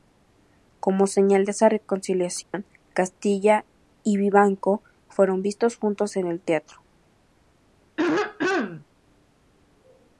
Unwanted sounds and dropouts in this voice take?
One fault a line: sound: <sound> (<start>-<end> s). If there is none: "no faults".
sound: dropout (2.4-2.5 s)
sound: throat clearing (8.0-8.8 s)